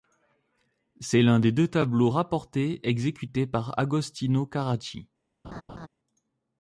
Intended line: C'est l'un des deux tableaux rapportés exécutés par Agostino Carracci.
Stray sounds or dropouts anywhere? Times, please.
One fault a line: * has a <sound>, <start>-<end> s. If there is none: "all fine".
* has a laugh, 5.4-5.9 s